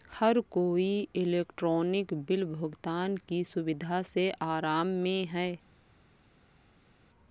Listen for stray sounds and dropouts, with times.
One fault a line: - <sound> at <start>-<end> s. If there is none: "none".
none